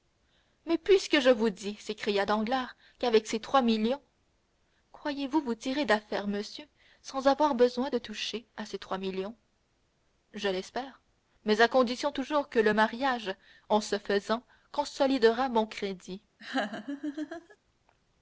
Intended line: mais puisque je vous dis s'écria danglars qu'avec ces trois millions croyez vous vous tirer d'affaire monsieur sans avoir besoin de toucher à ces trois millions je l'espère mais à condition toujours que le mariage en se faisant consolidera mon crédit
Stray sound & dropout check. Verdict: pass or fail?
fail